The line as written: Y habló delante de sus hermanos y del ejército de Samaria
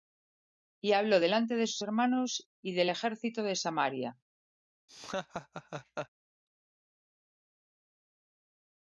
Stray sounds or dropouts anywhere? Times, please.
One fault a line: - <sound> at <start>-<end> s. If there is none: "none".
- laugh at 4.9-6.1 s